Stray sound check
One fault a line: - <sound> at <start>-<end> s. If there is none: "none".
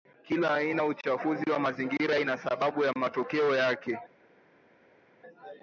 none